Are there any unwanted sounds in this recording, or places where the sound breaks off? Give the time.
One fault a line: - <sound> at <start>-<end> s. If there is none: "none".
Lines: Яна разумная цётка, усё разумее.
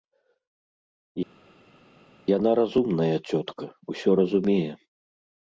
none